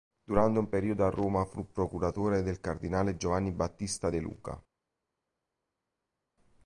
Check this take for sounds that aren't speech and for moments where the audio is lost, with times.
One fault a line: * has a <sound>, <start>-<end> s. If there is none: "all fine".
all fine